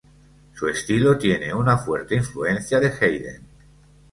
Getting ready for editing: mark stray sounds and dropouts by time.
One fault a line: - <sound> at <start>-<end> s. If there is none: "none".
none